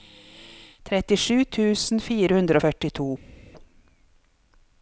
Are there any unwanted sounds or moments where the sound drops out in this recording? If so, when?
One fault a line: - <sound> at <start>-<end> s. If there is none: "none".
none